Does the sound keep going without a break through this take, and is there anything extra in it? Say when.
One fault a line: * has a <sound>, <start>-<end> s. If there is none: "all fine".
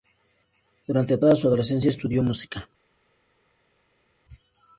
all fine